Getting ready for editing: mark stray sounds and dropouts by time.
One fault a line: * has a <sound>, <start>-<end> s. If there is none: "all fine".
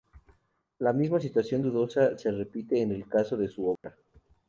* has a dropout, 3.8-3.8 s